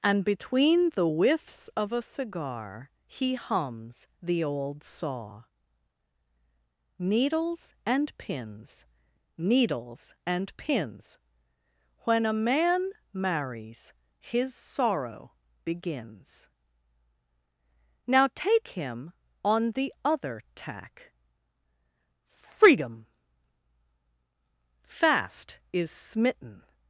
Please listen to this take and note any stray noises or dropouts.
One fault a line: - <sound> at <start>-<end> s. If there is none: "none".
none